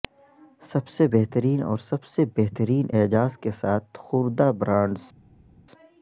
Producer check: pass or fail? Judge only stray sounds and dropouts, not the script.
pass